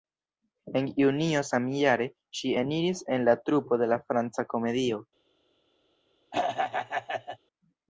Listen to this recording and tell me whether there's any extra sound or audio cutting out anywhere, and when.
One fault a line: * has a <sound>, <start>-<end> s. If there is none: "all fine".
* has a throat clearing, 6.3-7.4 s